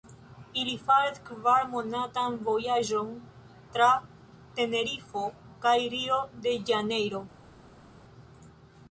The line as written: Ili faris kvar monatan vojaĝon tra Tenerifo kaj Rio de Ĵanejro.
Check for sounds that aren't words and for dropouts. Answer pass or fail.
pass